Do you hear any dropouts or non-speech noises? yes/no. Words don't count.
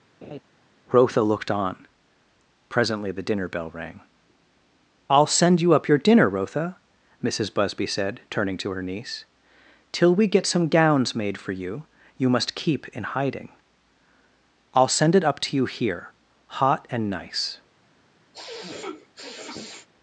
yes